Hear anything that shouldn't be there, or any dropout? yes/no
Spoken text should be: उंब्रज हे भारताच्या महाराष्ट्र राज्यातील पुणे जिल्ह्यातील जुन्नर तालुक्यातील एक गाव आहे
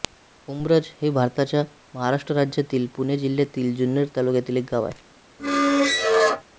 yes